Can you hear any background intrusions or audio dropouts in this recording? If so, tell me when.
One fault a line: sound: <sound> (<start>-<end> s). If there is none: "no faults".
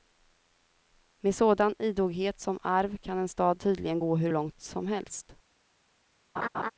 sound: laugh (6.4-6.7 s)